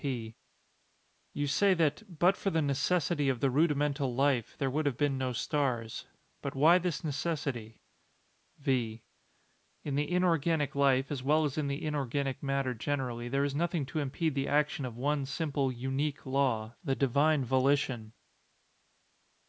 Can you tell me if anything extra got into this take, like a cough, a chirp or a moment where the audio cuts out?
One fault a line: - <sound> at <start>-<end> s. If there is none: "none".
none